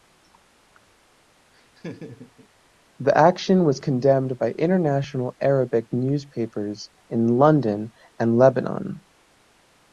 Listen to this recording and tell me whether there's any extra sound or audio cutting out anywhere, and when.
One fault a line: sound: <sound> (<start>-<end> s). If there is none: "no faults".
sound: laugh (1.5-2.5 s)